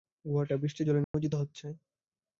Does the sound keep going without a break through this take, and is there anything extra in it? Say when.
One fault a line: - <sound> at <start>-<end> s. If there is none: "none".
- dropout at 1.0-1.1 s